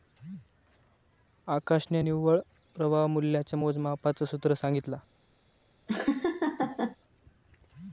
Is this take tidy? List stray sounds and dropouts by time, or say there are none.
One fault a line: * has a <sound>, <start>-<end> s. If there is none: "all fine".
* has a laugh, 5.9-7.0 s